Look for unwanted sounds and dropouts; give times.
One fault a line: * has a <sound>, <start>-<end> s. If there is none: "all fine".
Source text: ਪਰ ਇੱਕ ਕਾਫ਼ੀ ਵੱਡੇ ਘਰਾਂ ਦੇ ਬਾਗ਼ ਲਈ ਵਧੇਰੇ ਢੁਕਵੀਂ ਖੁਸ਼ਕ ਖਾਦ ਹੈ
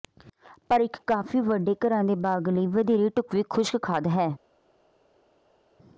all fine